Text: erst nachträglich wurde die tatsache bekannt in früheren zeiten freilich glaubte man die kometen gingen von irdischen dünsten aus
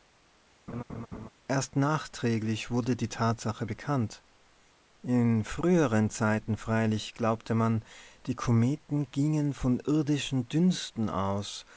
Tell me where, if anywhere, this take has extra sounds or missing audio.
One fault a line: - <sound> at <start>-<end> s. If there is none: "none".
- laugh at 0.7-1.3 s